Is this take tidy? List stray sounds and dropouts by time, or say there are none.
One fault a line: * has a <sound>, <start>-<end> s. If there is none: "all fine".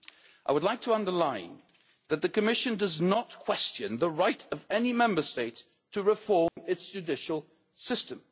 * has a dropout, 6.5-6.6 s